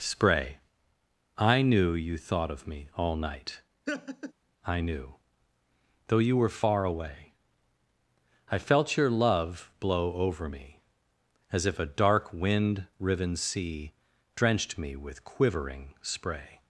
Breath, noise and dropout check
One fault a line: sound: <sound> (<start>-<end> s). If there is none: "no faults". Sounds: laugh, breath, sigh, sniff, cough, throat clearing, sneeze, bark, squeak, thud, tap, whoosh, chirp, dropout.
sound: laugh (3.9-4.3 s)